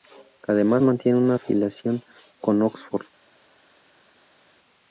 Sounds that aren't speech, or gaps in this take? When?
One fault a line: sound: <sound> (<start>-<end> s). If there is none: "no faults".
no faults